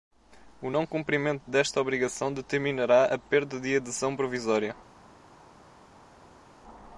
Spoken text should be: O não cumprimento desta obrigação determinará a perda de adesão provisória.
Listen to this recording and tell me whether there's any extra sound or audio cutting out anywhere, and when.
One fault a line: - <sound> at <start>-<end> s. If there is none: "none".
none